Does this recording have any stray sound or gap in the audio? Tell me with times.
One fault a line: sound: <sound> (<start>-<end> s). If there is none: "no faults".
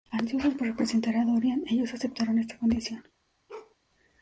sound: bark (3.5-3.8 s)